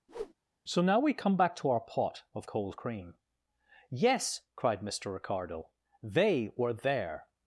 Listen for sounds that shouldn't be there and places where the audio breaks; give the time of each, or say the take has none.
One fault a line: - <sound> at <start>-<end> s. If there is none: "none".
- whoosh at 0.1-0.3 s